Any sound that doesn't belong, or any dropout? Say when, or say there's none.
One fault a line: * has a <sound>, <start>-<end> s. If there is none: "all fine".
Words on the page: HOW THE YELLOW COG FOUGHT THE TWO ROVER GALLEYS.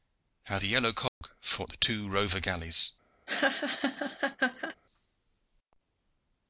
* has a dropout, 1.1-1.2 s
* has a laugh, 3.3-4.8 s